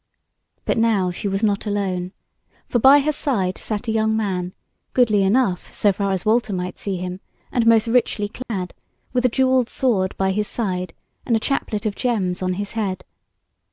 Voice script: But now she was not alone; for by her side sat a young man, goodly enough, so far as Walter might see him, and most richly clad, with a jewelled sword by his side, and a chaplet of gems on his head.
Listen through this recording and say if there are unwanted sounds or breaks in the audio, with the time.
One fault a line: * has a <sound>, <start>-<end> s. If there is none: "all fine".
* has a dropout, 8.4-8.5 s